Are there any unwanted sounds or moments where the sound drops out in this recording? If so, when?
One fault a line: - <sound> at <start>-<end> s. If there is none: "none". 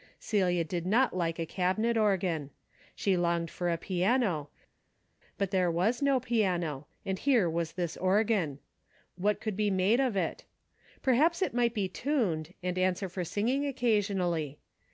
none